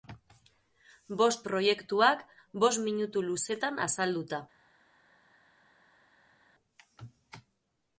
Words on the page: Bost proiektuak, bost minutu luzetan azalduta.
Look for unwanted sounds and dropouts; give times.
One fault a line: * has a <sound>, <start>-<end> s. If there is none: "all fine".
all fine